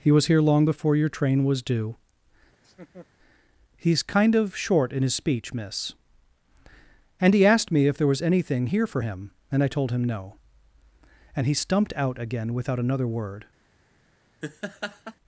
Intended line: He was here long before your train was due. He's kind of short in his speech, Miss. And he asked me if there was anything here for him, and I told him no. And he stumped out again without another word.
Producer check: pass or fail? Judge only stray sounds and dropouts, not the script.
fail